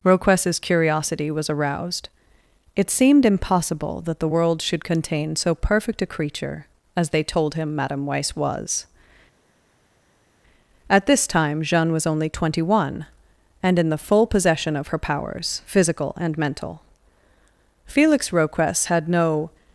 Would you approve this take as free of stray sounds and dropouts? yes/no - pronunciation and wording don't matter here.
yes